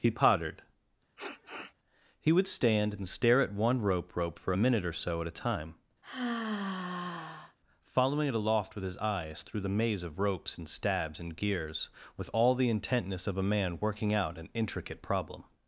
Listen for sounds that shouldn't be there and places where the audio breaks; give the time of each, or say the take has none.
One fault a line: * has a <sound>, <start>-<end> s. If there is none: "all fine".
* has a sniff, 1.2-1.7 s
* has a sigh, 6.0-7.6 s